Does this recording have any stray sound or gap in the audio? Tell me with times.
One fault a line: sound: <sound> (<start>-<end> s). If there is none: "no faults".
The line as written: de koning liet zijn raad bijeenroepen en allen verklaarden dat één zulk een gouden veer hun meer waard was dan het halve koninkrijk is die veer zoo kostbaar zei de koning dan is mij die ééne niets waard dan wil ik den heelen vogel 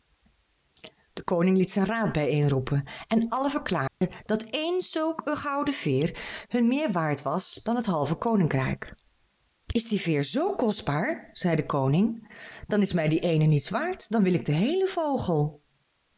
sound: dropout (3.9-4.0 s)